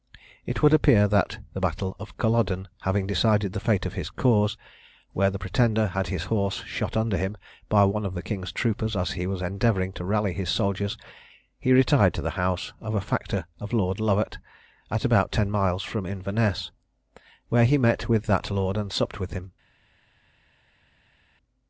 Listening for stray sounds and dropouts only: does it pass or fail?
pass